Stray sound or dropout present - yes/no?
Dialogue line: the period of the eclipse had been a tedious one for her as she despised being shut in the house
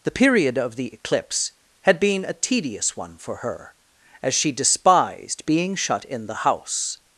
no